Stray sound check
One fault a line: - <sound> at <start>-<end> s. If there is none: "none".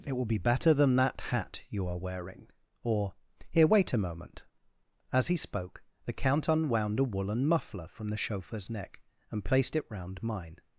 none